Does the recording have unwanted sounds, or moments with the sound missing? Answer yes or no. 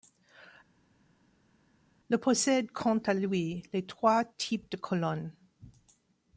no